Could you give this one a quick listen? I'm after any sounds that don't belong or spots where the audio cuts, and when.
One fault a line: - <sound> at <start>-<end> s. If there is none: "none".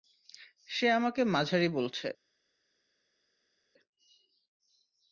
none